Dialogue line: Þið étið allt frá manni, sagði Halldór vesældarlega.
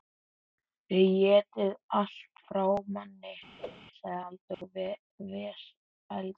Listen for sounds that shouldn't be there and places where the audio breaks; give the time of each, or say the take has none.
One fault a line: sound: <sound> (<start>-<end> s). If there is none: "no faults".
sound: whoosh (3.6-3.9 s)
sound: dropout (4.5-4.6 s)